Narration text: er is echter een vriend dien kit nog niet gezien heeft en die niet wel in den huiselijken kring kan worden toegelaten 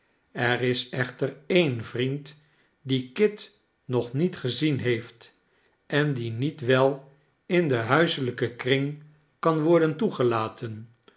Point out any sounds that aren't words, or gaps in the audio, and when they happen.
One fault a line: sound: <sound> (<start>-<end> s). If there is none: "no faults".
no faults